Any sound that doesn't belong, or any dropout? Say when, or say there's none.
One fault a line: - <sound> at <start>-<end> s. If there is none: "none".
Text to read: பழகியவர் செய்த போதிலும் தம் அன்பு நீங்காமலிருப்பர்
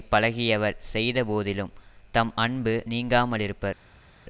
none